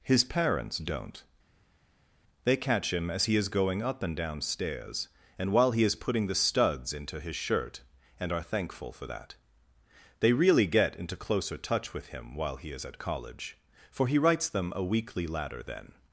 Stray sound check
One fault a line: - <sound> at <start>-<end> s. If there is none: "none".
none